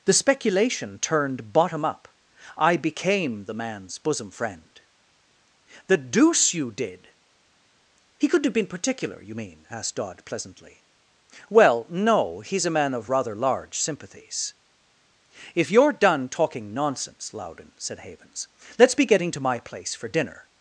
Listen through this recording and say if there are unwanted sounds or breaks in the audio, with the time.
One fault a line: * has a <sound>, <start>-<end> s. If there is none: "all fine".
all fine